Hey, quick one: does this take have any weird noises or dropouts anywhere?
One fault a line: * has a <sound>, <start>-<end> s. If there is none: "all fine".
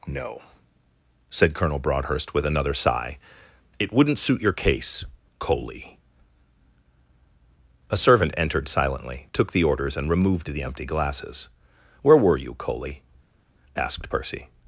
all fine